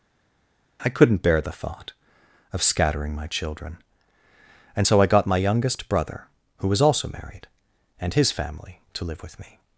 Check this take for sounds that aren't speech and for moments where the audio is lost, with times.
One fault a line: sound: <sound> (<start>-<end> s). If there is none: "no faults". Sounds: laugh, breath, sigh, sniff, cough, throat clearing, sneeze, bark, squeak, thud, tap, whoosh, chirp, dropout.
no faults